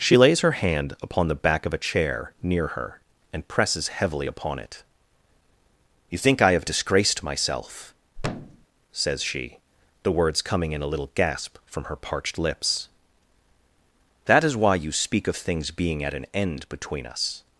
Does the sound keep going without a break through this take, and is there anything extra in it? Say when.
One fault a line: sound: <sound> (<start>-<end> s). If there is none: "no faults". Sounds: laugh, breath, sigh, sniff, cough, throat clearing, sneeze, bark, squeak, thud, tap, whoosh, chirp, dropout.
sound: thud (8.2-8.7 s)